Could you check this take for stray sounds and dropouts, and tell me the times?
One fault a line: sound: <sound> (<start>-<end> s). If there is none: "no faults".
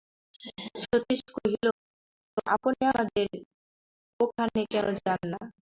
no faults